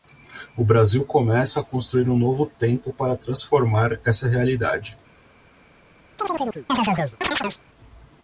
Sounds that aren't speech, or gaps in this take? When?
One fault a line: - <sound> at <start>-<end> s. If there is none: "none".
- chirp at 6.2-7.6 s